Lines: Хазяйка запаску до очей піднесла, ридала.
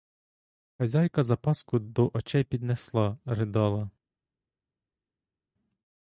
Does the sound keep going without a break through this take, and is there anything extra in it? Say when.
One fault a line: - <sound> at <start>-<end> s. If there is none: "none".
none